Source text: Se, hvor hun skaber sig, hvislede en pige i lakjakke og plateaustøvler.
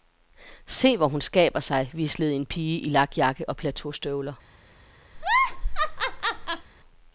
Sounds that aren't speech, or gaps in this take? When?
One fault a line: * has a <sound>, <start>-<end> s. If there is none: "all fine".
* has a laugh, 5.1-6.7 s